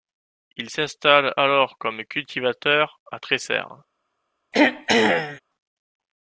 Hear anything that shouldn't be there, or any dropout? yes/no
yes